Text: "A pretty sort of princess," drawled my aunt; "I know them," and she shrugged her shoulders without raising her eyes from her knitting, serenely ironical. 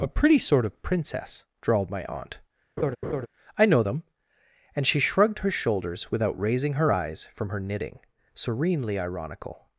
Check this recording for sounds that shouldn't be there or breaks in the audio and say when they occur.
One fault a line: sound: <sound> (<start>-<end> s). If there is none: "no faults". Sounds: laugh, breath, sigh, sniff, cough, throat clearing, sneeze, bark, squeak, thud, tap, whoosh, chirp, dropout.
sound: laugh (2.8-3.3 s)